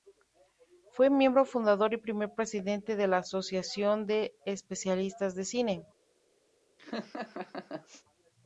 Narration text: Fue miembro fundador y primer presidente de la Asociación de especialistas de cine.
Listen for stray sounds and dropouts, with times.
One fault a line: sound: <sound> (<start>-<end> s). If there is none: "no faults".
sound: laugh (6.8-8.0 s)